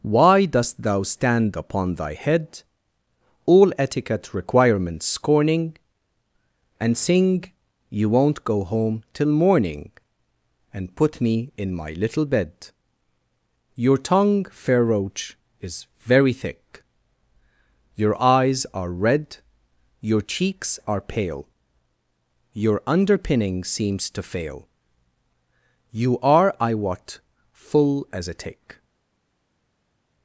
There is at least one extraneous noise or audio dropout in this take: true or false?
false